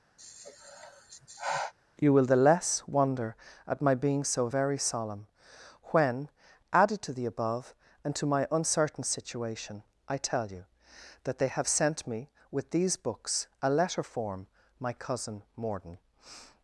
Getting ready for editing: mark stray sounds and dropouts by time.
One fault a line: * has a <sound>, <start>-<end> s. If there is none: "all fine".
* has a sigh, 0.2-1.7 s